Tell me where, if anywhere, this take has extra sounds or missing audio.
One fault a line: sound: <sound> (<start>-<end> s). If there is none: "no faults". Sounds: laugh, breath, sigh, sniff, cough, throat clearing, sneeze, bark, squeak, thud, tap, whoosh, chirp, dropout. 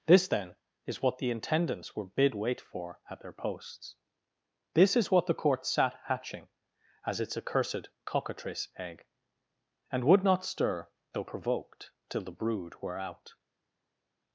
no faults